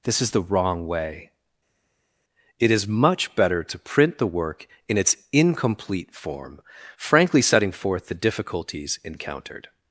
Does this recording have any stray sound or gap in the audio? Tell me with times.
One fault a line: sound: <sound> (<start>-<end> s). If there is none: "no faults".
no faults